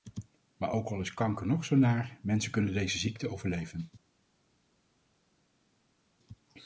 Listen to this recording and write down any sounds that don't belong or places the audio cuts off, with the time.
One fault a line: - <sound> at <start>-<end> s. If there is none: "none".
none